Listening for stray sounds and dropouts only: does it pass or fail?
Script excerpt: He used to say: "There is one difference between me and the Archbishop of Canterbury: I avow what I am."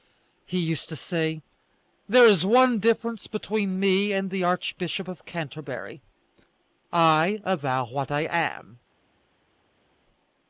pass